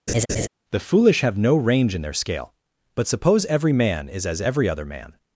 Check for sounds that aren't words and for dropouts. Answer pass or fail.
fail